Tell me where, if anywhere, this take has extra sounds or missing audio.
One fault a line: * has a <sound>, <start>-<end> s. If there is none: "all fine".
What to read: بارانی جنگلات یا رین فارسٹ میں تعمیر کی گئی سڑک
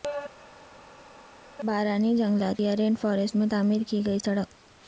all fine